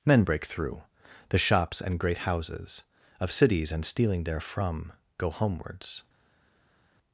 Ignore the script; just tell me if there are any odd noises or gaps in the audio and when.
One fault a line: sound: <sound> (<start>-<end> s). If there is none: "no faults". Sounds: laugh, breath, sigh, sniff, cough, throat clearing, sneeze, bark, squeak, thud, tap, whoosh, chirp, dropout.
no faults